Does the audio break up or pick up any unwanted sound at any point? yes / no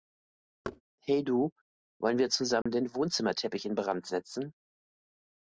yes